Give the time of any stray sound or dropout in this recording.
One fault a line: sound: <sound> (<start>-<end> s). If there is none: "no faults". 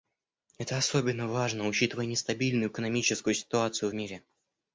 no faults